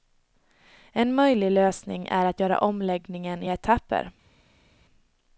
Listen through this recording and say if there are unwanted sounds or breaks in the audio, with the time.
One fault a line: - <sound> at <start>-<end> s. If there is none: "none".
none